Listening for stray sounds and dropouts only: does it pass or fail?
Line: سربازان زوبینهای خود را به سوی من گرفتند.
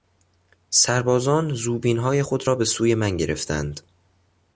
pass